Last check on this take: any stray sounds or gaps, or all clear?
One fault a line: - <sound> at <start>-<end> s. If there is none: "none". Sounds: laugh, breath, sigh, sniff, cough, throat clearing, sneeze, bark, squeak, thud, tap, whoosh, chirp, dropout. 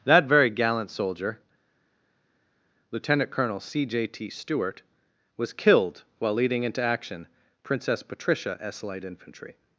none